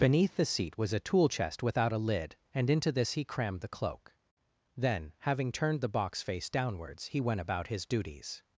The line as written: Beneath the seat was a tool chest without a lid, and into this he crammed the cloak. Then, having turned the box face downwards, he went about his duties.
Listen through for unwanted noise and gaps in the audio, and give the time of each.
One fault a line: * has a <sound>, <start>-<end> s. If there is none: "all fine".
all fine